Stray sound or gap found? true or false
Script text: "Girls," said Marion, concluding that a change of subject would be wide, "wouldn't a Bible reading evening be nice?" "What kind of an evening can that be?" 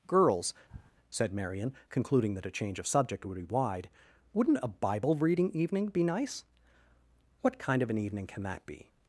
true